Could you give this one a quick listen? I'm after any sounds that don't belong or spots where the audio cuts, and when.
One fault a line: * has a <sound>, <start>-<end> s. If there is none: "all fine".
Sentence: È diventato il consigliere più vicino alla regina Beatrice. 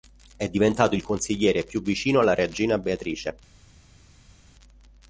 all fine